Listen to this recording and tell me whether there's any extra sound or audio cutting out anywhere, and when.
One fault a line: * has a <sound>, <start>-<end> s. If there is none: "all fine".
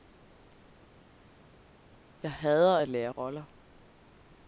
all fine